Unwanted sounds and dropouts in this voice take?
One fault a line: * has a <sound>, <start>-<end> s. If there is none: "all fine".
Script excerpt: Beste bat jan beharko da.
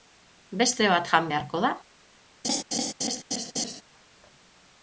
* has a laugh, 2.4-3.8 s